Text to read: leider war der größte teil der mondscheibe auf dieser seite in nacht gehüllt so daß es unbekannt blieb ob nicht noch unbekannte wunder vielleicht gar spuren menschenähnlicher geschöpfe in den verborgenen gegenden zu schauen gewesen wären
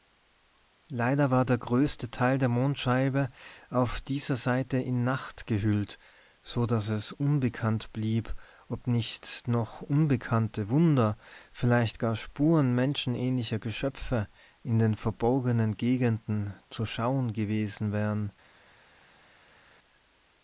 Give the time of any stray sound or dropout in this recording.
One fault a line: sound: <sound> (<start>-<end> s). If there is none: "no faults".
no faults